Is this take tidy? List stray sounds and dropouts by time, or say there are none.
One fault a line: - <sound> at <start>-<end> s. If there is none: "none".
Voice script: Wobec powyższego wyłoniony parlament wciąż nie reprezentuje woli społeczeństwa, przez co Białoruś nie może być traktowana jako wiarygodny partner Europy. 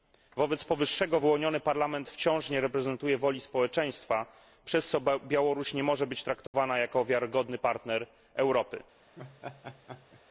- dropout at 6.5-6.5 s
- laugh at 9.2-10.2 s